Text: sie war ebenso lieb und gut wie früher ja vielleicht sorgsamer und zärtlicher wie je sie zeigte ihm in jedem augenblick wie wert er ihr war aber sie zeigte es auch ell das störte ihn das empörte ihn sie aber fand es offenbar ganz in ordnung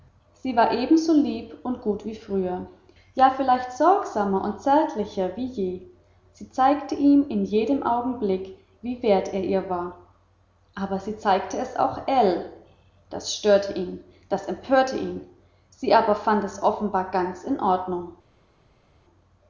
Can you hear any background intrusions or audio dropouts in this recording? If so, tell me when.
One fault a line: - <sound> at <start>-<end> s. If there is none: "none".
none